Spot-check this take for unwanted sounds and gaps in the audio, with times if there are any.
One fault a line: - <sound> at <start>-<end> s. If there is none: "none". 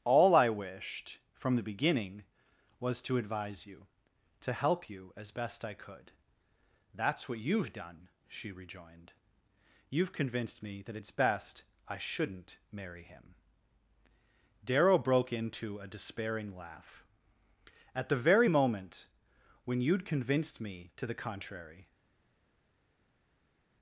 none